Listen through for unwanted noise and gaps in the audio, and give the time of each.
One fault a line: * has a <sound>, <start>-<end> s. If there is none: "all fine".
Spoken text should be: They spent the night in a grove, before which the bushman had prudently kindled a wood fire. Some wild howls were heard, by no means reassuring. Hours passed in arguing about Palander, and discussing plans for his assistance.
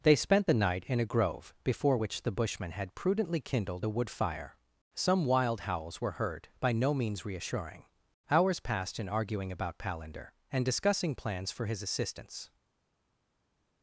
all fine